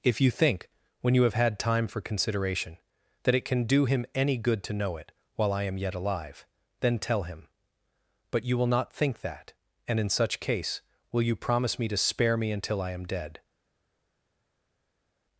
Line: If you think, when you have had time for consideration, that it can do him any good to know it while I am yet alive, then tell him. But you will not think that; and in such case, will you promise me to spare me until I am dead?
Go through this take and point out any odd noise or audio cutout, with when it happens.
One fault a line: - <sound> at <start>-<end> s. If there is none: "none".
none